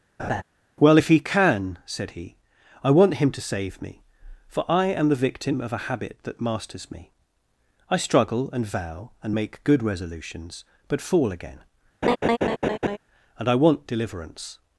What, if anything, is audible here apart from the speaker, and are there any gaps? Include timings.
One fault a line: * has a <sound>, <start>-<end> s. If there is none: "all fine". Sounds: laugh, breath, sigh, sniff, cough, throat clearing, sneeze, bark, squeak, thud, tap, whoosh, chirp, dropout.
* has a laugh, 0.2-0.4 s
* has a laugh, 12.0-13.0 s